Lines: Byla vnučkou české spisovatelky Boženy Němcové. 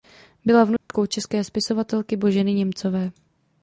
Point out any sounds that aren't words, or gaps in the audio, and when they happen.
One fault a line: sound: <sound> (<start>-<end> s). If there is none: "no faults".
sound: dropout (0.8-0.9 s)